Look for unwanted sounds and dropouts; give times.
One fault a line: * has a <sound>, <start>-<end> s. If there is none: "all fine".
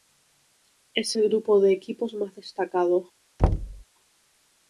* has a thud, 3.4-3.8 s